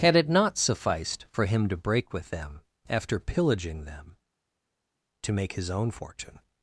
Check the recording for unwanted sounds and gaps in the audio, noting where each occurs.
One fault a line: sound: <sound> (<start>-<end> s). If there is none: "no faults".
no faults